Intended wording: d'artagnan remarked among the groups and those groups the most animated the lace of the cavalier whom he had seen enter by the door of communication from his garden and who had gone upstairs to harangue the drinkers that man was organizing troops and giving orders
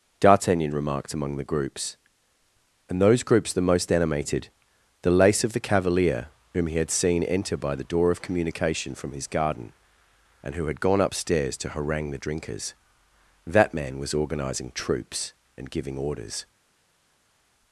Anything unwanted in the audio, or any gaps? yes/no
no